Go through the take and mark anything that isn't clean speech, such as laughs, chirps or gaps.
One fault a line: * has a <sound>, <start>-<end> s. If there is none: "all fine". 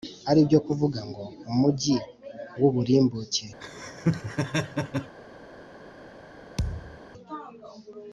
* has a laugh, 3.6-5.1 s
* has a thud, 6.6-7.0 s